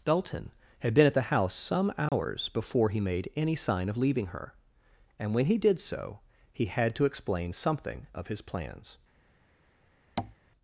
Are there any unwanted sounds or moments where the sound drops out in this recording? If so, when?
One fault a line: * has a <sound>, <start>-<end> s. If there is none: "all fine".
* has a dropout, 2.1-2.1 s
* has a tap, 10.2-10.4 s